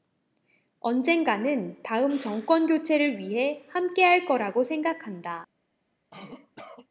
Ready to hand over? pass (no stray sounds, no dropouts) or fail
fail